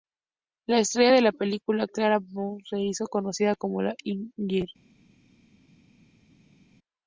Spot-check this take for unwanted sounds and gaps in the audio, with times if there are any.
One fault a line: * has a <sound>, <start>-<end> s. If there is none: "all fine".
all fine